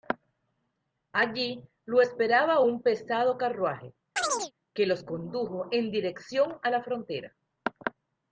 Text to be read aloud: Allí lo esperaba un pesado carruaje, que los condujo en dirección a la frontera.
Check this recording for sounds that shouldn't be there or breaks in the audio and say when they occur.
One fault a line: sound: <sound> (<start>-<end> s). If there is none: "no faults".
sound: chirp (4.2-4.5 s)